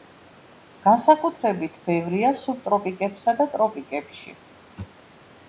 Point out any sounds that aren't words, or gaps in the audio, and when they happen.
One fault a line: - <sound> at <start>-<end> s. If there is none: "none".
none